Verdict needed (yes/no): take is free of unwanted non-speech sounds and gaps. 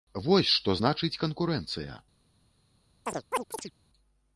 no